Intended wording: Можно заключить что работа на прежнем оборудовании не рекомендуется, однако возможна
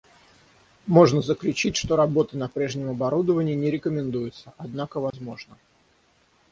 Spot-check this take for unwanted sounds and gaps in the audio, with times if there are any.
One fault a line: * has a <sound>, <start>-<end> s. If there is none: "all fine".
* has a dropout, 5.1-5.1 s